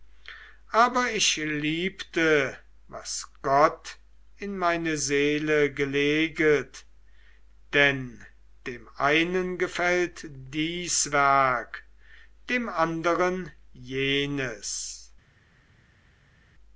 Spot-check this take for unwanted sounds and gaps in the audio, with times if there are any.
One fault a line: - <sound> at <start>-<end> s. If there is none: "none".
none